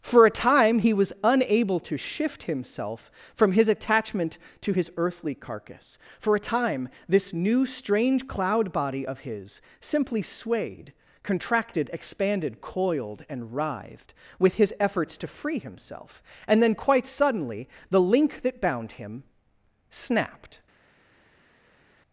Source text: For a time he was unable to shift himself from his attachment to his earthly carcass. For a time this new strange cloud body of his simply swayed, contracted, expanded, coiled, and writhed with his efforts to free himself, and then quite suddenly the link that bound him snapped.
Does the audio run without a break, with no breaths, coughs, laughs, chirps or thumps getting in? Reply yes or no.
yes